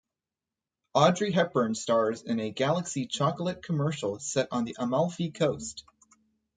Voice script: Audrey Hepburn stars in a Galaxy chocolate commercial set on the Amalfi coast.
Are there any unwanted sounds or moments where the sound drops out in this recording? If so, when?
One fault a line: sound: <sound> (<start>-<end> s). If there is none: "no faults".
no faults